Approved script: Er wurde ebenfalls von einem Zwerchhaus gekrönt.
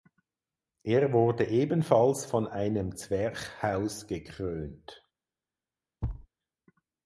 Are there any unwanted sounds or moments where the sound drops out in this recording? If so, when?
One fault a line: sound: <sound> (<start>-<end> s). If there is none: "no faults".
sound: thud (6.0-6.3 s)